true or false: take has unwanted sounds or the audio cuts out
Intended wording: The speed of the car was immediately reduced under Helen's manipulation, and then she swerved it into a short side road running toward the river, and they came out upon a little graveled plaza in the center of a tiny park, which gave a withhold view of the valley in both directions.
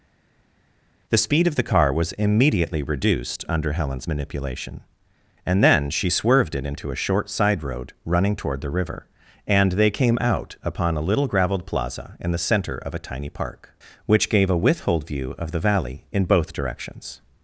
false